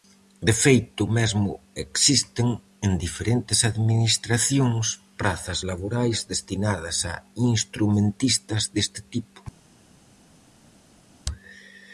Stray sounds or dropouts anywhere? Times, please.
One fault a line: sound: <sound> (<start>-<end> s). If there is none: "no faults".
no faults